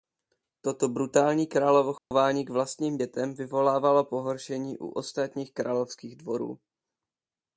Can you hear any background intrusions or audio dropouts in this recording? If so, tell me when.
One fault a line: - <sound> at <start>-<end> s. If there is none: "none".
- dropout at 2.0-2.1 s